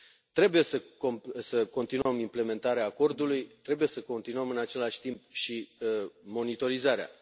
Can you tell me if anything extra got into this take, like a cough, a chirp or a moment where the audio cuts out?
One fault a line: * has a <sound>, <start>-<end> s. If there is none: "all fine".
* has a dropout, 2.0-2.1 s